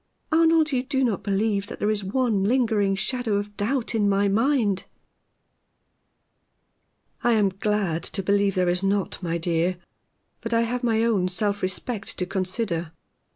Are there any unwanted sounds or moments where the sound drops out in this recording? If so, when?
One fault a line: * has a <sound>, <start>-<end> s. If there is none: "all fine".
all fine